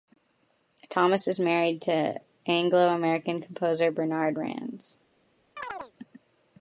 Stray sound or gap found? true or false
true